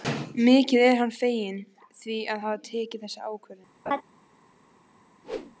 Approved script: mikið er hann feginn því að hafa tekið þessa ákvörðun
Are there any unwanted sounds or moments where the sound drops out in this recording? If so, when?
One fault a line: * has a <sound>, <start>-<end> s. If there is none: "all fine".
* has a laugh, 3.9-4.0 s
* has a whoosh, 5.2-5.6 s